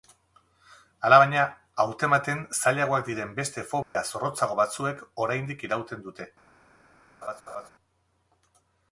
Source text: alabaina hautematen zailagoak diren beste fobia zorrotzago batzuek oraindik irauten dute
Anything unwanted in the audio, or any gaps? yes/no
yes